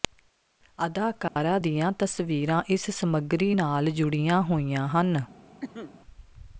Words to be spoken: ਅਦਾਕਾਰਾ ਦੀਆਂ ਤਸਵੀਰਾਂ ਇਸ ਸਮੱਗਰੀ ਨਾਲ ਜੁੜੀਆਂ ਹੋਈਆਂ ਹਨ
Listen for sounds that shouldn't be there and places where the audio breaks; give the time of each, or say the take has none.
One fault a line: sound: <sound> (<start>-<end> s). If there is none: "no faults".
sound: dropout (1.3-1.4 s)
sound: cough (5.6-5.9 s)